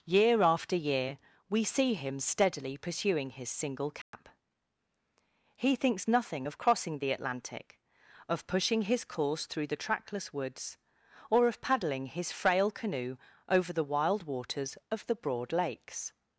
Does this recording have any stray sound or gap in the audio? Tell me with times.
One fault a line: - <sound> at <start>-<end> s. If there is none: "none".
- dropout at 4.0-4.1 s